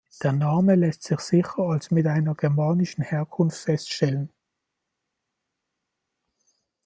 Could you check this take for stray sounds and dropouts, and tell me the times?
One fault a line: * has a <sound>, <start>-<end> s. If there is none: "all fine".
all fine